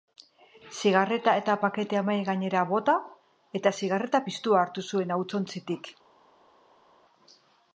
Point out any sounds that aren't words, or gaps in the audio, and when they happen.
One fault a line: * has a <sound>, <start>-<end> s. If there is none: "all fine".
all fine